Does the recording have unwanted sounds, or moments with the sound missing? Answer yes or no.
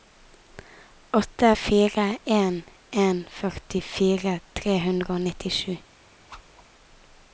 yes